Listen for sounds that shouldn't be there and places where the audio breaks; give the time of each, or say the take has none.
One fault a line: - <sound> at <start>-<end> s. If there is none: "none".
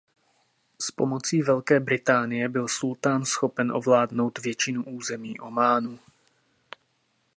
none